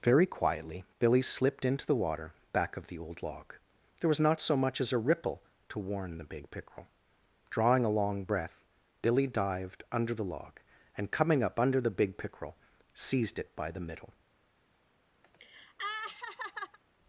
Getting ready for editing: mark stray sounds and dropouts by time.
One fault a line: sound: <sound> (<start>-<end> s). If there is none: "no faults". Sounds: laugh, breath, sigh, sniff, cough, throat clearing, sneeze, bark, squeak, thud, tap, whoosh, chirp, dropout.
sound: laugh (15.2-16.8 s)